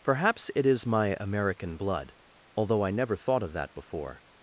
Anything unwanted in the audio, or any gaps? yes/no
no